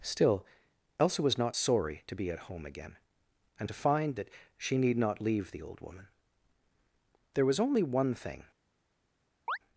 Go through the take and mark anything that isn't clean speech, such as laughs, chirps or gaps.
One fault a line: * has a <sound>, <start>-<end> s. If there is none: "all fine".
* has a chirp, 9.5-9.6 s